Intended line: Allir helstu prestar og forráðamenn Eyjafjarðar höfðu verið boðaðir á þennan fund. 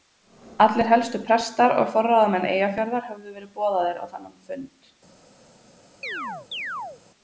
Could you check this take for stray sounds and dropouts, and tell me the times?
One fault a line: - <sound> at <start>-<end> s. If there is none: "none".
- chirp at 6.0-7.0 s